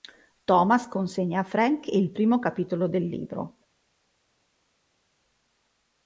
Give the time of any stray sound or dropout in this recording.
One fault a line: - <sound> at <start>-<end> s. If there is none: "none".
none